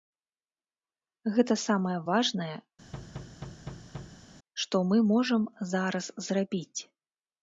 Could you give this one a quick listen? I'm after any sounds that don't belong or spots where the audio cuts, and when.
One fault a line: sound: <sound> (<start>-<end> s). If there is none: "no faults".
sound: thud (2.9-4.2 s)